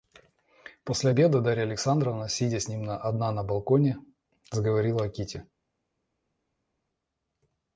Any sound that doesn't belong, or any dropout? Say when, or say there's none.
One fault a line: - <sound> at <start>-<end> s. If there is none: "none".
none